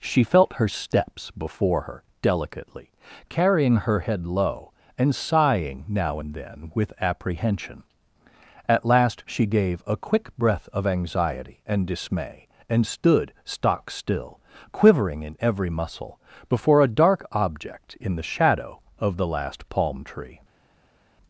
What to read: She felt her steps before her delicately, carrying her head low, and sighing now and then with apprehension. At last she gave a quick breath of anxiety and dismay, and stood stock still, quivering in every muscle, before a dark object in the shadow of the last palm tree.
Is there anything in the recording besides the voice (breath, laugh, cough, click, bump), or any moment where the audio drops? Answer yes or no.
no